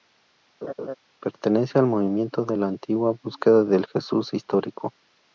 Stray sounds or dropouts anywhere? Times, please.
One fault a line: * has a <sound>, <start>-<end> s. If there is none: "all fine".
* has a laugh, 0.6-0.9 s